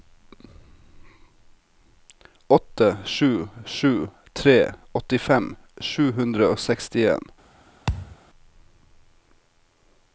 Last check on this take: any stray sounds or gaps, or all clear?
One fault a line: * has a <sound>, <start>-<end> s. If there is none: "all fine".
* has a thud, 7.9-8.2 s